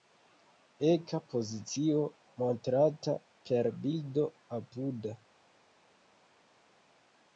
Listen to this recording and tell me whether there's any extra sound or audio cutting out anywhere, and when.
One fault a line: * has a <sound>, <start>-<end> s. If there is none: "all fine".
all fine